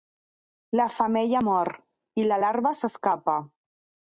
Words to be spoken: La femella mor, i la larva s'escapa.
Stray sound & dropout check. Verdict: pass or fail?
pass